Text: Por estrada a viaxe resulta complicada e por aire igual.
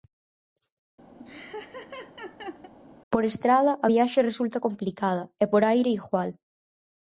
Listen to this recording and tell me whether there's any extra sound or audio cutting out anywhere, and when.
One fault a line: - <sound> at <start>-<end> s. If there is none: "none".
- laugh at 1.2-2.7 s